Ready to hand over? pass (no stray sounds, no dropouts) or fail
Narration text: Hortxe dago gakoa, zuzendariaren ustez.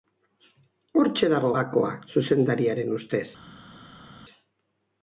pass